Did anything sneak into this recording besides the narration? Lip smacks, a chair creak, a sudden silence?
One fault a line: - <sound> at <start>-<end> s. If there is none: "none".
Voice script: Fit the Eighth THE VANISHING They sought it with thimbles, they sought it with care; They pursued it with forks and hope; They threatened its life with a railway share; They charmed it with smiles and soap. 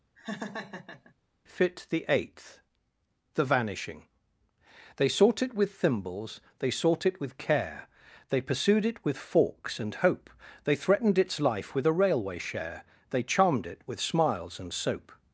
- laugh at 0.2-1.1 s